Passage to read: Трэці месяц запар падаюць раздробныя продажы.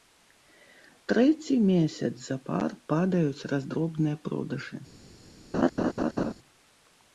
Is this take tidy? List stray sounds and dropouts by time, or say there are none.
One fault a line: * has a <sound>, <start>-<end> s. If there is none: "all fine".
* has a laugh, 5.5-6.3 s